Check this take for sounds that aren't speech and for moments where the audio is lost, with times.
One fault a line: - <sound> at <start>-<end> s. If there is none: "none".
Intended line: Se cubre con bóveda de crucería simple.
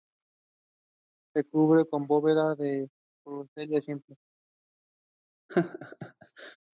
- laugh at 5.5-6.6 s